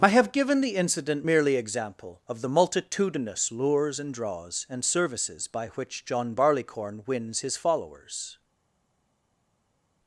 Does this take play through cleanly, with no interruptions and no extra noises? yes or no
yes